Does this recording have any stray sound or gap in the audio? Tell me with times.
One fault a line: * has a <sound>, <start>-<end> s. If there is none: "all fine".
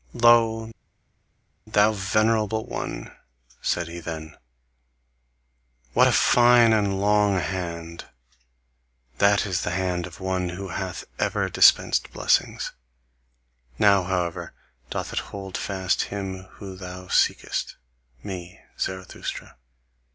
all fine